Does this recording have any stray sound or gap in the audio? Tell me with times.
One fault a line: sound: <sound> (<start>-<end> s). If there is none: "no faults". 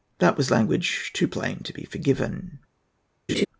sound: laugh (3.3-3.5 s)